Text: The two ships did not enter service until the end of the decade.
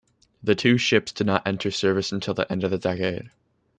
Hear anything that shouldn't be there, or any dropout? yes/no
no